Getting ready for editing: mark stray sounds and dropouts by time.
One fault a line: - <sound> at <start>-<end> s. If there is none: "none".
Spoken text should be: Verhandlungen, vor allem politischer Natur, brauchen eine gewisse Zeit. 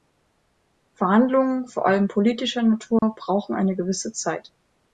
- dropout at 3.0-3.0 s